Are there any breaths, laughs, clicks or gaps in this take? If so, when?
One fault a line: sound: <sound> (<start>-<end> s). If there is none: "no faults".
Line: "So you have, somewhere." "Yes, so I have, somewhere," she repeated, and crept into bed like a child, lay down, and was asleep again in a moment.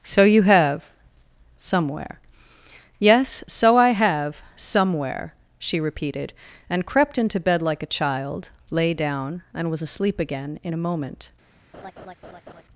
sound: laugh (11.7-12.6 s)